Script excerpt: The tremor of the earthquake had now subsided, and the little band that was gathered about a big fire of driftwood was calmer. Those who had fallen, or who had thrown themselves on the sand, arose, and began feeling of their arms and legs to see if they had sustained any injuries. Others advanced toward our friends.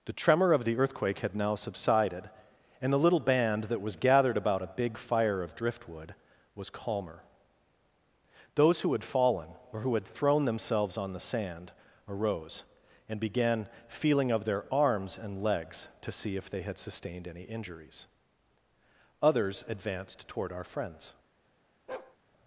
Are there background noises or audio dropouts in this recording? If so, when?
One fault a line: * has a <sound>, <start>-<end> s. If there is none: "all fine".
* has a bark, 21.9-22.2 s